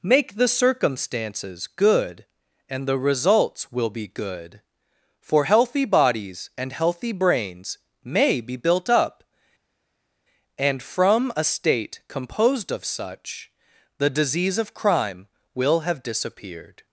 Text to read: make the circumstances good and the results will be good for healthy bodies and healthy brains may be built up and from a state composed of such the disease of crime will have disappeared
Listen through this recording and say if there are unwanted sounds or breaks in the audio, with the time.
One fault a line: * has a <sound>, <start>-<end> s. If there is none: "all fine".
all fine